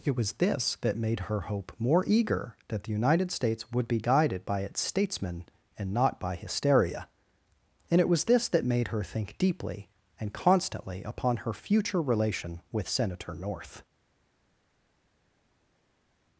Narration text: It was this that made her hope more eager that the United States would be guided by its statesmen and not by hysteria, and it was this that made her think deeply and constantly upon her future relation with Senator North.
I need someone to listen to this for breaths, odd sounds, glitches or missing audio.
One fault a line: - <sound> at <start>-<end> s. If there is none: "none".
none